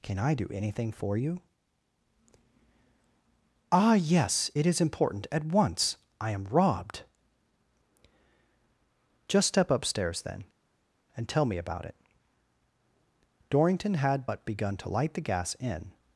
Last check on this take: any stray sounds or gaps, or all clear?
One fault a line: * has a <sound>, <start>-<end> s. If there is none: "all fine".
all fine